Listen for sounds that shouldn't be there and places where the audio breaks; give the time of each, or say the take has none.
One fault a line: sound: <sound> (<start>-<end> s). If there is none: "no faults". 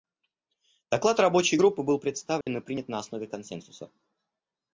sound: dropout (2.4-2.5 s)